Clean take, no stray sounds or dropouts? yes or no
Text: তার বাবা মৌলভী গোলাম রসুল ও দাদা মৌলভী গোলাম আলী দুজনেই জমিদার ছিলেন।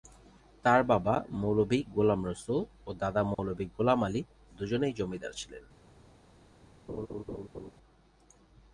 no